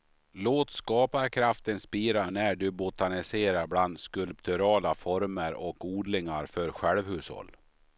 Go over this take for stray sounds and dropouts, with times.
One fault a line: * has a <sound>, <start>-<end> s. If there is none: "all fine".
all fine